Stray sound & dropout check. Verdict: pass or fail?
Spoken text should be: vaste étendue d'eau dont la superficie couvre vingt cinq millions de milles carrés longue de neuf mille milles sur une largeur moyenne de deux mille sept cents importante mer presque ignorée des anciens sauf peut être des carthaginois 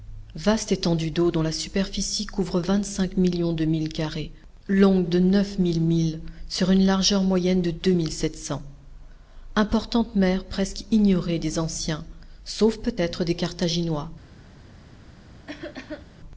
fail